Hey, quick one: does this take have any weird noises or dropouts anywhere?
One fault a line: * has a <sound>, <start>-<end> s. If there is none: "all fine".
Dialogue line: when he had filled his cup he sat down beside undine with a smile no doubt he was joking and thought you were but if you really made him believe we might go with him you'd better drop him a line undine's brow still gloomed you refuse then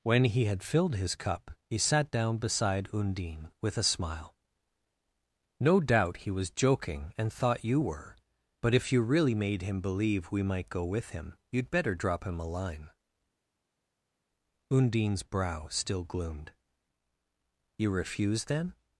all fine